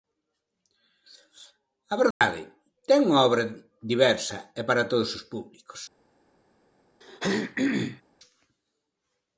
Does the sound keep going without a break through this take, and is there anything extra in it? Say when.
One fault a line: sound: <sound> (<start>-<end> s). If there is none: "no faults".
sound: dropout (2.1-2.2 s)
sound: throat clearing (7.0-8.0 s)